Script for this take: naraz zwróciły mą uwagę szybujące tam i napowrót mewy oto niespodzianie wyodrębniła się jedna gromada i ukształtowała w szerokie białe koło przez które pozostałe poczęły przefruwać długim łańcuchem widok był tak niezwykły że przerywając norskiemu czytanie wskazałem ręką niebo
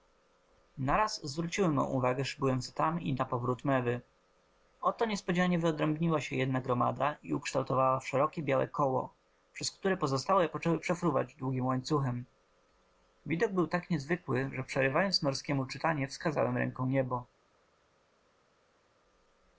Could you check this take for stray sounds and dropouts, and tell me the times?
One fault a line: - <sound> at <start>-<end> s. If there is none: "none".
none